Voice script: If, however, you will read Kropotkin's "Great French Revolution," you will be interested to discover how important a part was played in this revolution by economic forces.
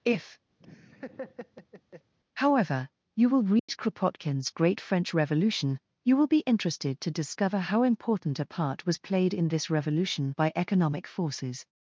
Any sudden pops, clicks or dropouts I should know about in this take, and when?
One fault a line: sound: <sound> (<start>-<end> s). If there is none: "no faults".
sound: laugh (0.6-2.1 s)
sound: dropout (3.6-3.7 s)